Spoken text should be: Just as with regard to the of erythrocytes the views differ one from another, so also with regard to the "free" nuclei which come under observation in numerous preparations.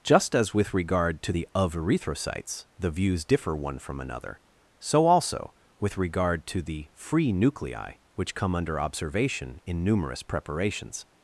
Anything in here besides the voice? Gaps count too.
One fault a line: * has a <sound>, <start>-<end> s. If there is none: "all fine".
all fine